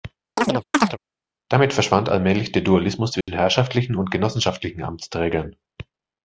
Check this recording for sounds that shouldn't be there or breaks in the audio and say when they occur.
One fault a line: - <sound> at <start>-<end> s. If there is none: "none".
- chirp at 0.4-1.0 s
- dropout at 3.2-3.3 s